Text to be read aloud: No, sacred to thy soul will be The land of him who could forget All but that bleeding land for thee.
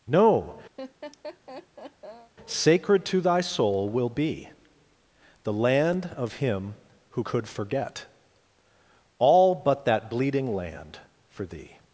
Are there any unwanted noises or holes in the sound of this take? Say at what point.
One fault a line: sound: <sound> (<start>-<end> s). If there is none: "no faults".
sound: laugh (0.8-2.3 s)